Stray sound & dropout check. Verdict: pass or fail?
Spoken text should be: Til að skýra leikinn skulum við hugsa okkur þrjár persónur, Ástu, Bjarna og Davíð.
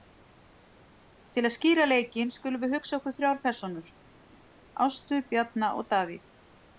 pass